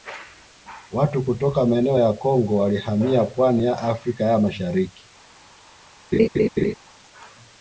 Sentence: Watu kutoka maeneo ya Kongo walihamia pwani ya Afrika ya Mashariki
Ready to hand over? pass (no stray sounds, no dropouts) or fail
fail